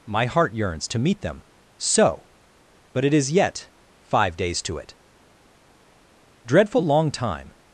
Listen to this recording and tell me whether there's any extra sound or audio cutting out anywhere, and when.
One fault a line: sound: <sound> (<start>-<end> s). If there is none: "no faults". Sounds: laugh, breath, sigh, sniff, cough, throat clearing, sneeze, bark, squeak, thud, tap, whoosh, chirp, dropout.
no faults